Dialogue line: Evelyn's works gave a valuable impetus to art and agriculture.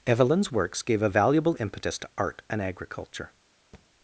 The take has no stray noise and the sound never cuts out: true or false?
false